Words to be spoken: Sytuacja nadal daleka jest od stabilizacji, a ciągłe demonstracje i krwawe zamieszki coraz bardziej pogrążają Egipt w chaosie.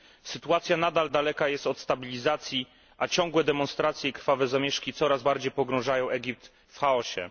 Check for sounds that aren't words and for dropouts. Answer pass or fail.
pass